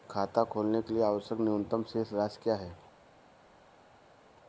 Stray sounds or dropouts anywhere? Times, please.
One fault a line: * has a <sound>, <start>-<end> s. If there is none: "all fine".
all fine